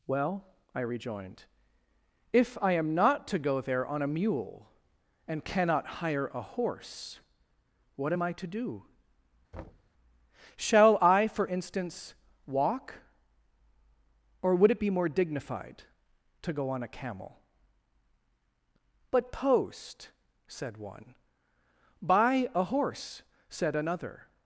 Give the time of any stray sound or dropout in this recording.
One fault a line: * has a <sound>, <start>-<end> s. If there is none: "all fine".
* has a thud, 9.5-9.9 s